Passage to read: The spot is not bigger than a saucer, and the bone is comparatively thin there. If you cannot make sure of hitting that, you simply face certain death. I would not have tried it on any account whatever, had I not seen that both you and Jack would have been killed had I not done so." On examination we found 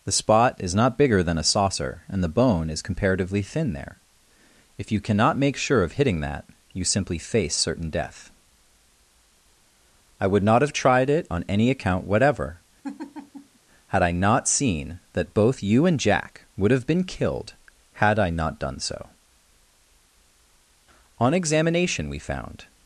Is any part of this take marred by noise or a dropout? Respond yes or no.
yes